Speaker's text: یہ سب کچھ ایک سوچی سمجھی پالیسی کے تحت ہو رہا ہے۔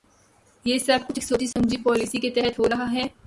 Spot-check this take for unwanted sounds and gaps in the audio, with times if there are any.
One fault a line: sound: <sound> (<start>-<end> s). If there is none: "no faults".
sound: dropout (1.5-1.6 s)